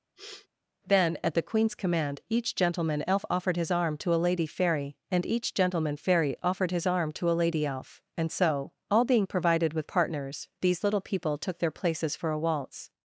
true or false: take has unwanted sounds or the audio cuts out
true